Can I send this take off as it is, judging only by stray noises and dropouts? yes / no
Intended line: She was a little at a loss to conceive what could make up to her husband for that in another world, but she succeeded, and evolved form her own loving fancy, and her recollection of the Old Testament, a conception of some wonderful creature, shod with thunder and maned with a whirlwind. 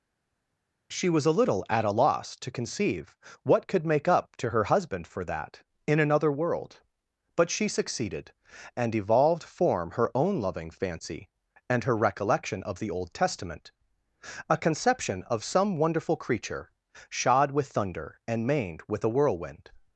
yes